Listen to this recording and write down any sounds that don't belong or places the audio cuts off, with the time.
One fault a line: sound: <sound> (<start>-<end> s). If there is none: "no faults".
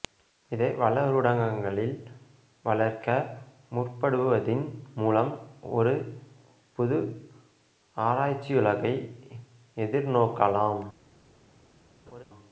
sound: laugh (12.1-12.2 s)